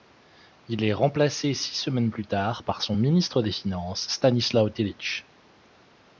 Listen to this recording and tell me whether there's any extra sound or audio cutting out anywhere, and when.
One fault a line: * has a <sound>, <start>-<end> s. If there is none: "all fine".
all fine